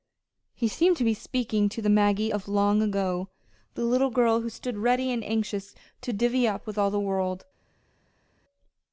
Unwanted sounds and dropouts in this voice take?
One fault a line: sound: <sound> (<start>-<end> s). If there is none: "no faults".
no faults